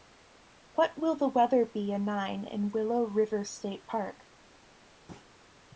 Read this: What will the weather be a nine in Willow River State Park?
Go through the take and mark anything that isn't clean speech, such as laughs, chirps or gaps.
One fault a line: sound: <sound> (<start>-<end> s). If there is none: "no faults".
sound: thud (5.1-5.3 s)